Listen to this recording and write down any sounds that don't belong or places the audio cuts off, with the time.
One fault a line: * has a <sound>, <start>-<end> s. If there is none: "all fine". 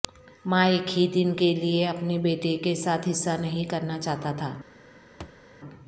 * has a thud, 5.2-5.4 s